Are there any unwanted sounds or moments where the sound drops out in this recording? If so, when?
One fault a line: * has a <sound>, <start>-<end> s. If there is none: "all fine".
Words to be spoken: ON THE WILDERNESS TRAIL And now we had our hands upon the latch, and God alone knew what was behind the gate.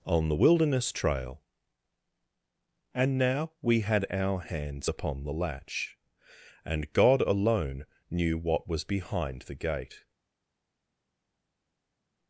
all fine